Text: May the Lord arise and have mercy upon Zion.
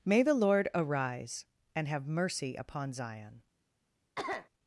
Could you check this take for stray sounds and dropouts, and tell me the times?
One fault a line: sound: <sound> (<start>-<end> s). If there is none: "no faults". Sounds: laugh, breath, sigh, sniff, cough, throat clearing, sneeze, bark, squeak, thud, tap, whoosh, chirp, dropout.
sound: cough (4.2-4.5 s)